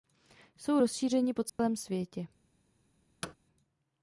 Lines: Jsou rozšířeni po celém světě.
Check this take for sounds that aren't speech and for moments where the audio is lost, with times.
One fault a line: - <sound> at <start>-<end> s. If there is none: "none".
- dropout at 1.5-1.6 s
- thud at 3.2-3.3 s